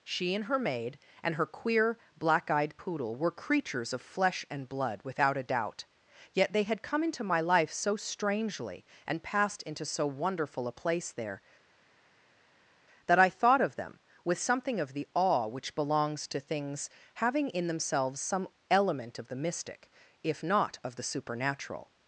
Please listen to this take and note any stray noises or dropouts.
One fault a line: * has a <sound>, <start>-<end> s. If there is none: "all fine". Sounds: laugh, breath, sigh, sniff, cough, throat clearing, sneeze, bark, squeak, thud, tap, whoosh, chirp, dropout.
all fine